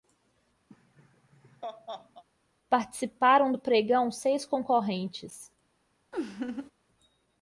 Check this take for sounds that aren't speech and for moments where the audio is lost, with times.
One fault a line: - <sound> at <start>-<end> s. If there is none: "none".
- laugh at 0.7-2.2 s
- laugh at 6.1-6.7 s